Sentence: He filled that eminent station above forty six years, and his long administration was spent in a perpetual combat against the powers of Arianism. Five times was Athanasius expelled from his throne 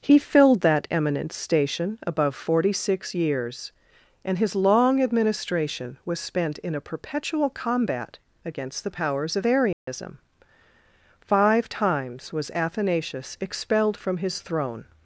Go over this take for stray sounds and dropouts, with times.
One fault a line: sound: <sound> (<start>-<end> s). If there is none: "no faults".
sound: dropout (9.7-9.9 s)